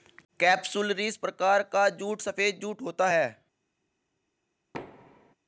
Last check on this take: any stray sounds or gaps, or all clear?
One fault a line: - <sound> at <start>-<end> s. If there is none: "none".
- thud at 4.7-5.3 s